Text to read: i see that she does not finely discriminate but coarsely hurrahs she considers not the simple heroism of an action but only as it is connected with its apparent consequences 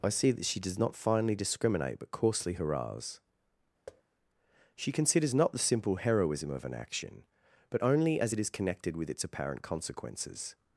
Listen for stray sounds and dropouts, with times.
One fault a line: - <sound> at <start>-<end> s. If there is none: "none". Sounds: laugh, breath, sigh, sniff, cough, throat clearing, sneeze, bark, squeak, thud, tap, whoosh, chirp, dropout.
- thud at 3.9-4.0 s